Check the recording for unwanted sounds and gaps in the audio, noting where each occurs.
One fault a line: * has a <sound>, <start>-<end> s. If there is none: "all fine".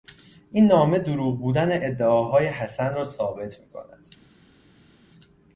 all fine